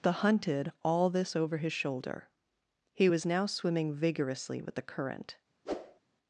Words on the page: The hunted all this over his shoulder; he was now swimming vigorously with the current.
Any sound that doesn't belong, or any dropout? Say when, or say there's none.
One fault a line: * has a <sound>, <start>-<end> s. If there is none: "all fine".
* has a whoosh, 5.7-6.0 s